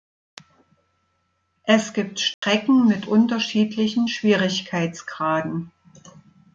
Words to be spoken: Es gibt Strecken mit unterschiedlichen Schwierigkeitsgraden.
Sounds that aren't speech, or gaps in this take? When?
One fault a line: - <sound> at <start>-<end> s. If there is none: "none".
- dropout at 2.3-2.4 s